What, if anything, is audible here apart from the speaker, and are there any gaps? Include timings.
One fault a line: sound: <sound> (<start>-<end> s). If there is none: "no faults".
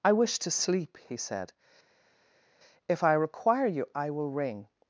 no faults